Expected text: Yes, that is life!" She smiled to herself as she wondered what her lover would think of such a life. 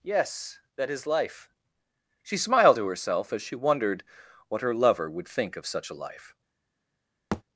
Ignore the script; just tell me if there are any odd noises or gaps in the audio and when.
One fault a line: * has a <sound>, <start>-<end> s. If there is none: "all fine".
* has a thud, 7.3-7.4 s